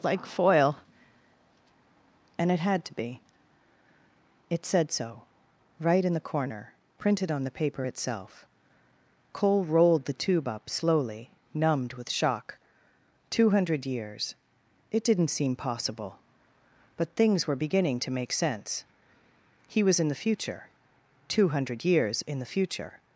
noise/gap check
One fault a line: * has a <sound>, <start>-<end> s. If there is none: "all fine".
all fine